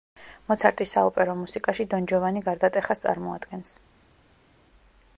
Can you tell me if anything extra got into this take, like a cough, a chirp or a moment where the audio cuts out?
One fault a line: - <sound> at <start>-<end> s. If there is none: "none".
none